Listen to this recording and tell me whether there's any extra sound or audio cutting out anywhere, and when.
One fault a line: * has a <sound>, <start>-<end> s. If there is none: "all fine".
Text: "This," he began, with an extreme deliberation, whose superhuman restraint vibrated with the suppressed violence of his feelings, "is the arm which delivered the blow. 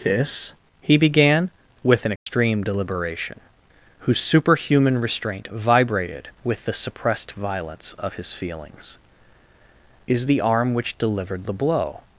* has a dropout, 2.2-2.3 s